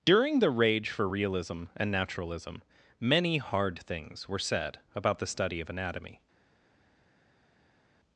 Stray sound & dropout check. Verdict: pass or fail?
pass